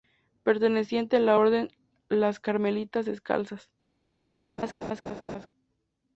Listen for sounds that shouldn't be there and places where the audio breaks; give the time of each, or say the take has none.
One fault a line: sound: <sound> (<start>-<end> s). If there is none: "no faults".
sound: laugh (4.6-5.5 s)